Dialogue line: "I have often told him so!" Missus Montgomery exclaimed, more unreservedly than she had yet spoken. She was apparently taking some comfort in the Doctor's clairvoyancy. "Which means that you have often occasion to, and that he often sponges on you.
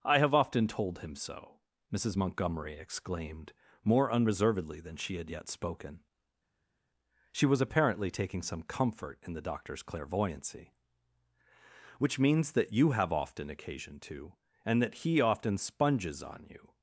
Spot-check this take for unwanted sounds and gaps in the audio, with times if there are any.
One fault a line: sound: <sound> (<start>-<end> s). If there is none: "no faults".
no faults